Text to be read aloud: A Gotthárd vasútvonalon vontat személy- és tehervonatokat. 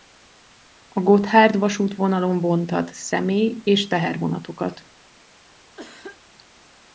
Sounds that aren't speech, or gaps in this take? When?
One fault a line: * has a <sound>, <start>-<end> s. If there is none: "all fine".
* has a cough, 5.8-6.2 s